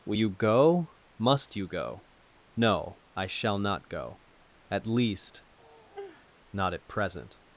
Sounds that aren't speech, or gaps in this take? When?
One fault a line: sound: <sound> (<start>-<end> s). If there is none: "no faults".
sound: sigh (5.6-6.3 s)